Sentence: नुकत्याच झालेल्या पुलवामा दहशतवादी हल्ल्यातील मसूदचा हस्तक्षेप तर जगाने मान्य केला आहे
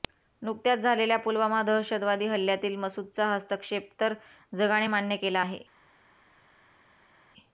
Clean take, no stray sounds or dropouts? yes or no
yes